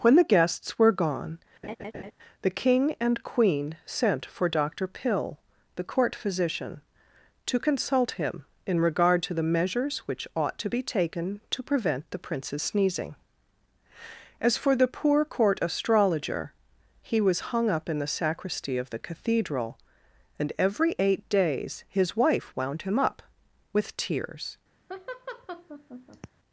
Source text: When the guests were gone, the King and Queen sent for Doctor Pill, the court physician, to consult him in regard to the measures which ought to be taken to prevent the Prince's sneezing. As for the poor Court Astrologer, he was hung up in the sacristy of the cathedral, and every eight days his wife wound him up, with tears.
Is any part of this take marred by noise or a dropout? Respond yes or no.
yes